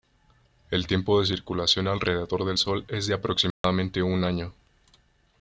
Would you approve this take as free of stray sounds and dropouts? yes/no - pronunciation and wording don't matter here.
no